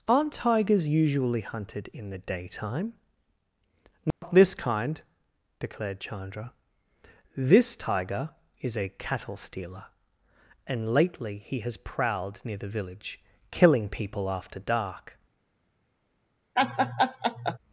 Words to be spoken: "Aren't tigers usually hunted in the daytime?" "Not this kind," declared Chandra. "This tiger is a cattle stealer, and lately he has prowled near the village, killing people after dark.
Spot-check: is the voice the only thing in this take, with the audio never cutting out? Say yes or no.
no